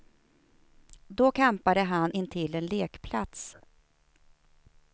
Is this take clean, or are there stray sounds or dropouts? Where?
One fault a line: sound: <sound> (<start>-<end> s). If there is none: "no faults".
no faults